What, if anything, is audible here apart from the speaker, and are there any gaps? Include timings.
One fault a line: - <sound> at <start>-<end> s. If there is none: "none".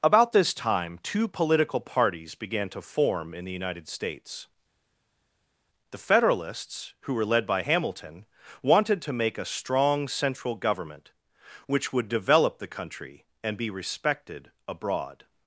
none